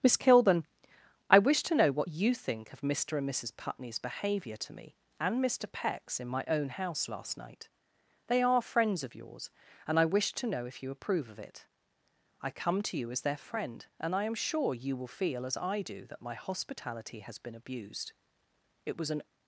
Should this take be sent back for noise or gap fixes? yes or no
no